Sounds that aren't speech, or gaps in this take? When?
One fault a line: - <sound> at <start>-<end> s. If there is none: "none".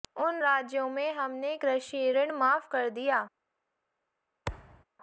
- thud at 4.5-4.8 s